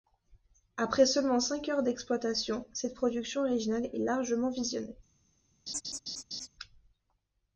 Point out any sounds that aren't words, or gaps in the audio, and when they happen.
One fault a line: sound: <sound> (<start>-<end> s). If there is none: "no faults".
sound: laugh (5.7-6.5 s)